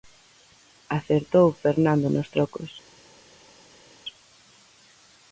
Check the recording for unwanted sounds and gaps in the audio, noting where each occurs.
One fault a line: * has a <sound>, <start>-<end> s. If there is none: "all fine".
all fine